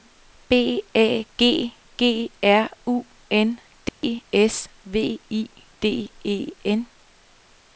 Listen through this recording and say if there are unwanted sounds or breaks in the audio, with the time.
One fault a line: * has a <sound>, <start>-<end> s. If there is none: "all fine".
* has a dropout, 3.9-4.0 s